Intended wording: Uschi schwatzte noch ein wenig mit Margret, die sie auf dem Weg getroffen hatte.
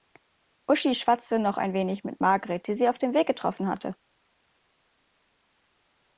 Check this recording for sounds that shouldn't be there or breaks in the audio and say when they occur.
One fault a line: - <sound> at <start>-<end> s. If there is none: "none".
none